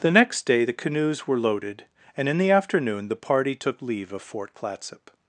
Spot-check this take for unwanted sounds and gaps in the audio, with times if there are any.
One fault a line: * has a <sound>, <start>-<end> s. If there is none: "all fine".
all fine